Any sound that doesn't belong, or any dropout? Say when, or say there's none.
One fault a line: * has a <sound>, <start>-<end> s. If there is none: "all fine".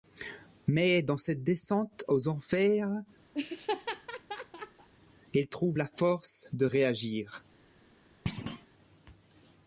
* has a laugh, 3.3-4.9 s
* has a thud, 8.3-8.7 s